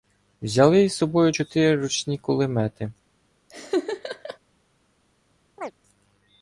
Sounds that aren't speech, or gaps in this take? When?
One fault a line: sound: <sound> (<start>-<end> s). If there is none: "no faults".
sound: laugh (3.5-4.4 s)
sound: chirp (5.6-5.7 s)